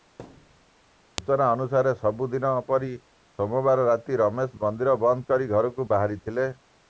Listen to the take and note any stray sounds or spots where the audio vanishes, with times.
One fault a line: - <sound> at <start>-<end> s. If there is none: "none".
- thud at 0.2-0.7 s